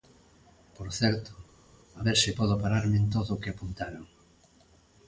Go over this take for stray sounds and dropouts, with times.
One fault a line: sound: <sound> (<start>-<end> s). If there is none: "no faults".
no faults